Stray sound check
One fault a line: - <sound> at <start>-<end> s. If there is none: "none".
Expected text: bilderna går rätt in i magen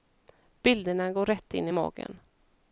none